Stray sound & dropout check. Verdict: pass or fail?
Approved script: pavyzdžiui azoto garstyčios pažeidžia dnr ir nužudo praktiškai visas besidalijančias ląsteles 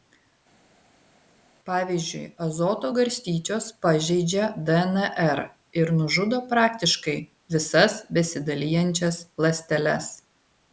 pass